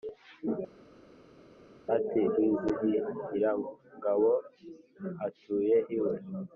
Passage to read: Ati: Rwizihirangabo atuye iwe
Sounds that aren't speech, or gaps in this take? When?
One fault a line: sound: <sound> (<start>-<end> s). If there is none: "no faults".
no faults